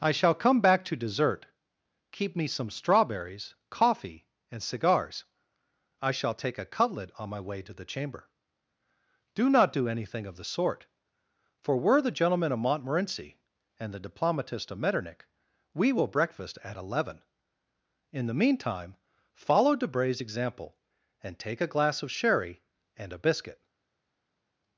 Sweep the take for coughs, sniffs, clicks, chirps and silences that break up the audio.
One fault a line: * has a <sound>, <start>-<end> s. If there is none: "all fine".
all fine